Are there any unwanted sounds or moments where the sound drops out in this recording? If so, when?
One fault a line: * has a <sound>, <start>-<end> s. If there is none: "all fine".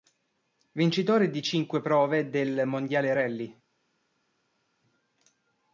all fine